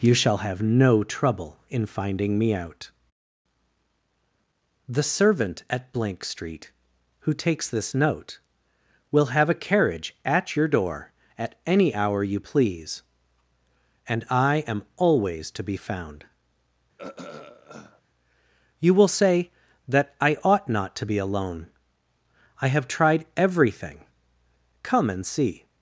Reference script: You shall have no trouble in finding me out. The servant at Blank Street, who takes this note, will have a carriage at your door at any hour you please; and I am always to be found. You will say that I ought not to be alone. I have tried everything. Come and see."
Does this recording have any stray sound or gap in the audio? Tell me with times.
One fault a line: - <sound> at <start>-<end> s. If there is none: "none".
- throat clearing at 17.0-18.0 s